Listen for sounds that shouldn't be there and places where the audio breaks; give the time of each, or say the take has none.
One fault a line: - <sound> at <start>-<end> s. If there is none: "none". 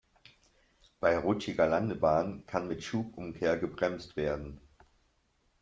none